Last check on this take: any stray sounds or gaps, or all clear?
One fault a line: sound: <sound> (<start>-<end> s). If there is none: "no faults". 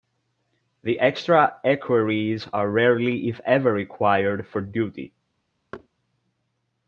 sound: thud (5.7-5.9 s)